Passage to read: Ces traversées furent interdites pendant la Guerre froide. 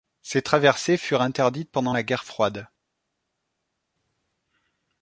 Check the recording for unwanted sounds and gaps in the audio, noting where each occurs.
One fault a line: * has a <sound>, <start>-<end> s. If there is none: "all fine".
all fine